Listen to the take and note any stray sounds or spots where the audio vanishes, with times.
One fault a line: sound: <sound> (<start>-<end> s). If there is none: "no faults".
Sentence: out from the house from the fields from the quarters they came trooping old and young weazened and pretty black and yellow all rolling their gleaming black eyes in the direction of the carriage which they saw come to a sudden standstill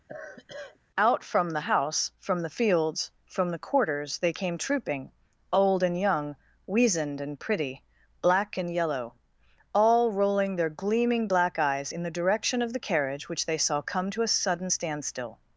sound: sigh (0.1-0.8 s)